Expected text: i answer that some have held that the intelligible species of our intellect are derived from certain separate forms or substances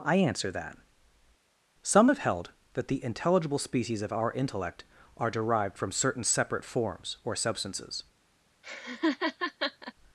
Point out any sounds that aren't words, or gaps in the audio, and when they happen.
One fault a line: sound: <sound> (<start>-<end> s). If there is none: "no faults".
sound: laugh (8.6-9.9 s)